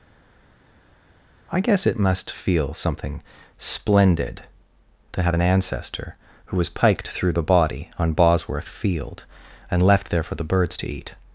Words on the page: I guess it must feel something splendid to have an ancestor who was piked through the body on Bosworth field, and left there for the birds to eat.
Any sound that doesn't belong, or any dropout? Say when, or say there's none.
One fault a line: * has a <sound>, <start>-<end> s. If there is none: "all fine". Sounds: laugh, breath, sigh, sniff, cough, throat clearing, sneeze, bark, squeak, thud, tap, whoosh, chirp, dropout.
all fine